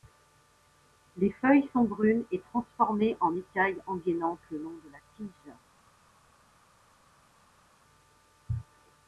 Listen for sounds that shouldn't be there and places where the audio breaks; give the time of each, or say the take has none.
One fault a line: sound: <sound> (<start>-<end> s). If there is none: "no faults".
no faults